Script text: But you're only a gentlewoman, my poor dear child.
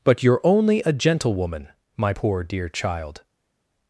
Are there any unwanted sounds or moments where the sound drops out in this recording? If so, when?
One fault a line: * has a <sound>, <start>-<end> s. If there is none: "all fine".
all fine